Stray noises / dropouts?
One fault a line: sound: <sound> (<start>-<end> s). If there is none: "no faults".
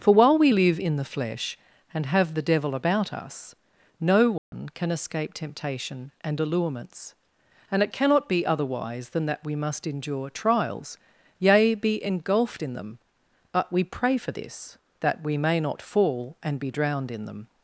sound: dropout (4.4-4.5 s)